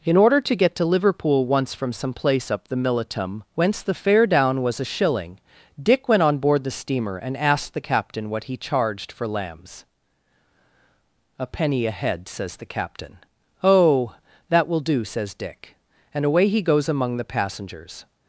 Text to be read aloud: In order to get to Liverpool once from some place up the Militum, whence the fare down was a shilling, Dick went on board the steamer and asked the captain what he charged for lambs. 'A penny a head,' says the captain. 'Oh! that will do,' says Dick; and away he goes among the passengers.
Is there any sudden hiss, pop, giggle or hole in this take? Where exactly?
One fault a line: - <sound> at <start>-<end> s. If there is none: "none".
none